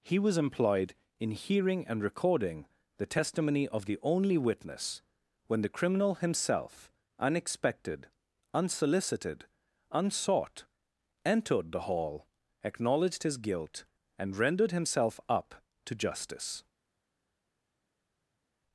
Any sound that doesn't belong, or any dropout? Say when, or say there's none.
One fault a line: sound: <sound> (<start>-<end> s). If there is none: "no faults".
no faults